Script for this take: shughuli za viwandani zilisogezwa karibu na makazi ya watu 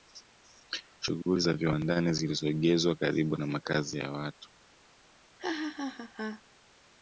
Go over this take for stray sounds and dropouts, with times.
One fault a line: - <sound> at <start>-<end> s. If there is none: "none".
- laugh at 5.4-6.4 s